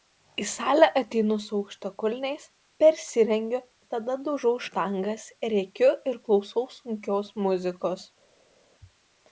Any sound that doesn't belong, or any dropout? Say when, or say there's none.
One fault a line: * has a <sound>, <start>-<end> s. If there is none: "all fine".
all fine